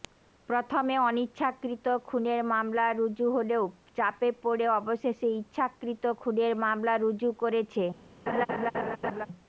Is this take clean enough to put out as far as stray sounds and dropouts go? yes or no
no